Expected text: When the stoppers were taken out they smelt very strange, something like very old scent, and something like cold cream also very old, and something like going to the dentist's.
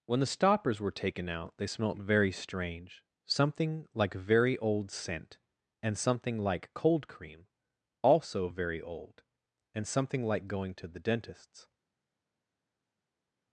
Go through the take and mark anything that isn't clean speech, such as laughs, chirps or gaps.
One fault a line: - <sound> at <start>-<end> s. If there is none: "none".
none